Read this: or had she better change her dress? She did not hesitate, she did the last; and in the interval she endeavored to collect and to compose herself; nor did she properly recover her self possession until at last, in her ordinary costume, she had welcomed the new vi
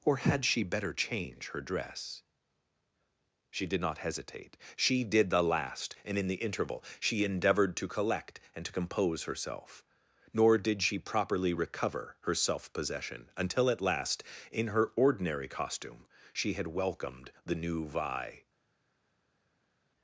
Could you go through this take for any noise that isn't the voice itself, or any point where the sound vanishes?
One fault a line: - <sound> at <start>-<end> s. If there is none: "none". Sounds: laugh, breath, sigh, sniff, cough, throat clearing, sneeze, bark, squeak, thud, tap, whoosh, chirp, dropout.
none